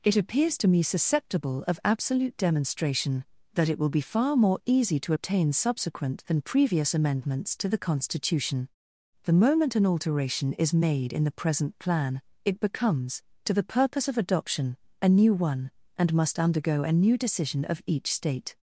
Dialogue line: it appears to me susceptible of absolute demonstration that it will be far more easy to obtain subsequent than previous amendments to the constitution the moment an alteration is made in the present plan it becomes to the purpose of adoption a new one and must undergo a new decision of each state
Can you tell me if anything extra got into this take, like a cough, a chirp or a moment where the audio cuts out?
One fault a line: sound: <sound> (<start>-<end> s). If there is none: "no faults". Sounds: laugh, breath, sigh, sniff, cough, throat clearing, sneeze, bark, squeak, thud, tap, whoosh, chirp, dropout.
no faults